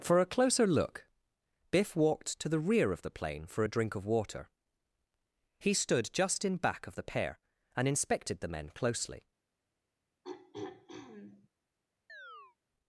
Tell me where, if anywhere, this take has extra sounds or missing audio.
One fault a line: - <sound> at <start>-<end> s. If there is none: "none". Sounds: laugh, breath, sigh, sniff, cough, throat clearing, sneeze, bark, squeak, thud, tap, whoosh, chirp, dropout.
- throat clearing at 10.2-11.5 s
- chirp at 12.1-12.6 s